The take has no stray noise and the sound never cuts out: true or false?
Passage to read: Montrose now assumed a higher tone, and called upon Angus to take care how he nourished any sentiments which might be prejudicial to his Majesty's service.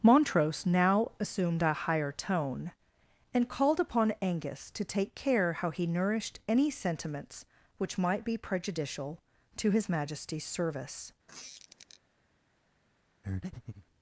false